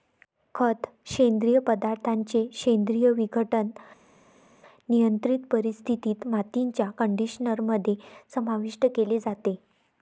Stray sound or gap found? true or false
false